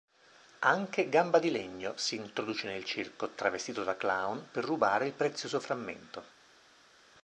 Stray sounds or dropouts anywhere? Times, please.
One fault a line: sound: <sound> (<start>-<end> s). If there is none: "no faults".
no faults